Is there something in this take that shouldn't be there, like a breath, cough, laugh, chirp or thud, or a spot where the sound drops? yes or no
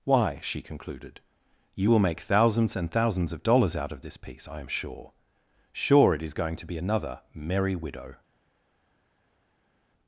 no